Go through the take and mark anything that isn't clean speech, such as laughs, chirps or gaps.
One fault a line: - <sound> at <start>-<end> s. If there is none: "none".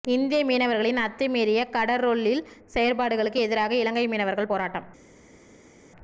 none